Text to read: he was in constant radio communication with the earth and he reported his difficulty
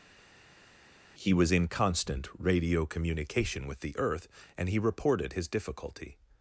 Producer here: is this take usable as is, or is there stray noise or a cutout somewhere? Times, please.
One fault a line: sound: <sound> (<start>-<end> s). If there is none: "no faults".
no faults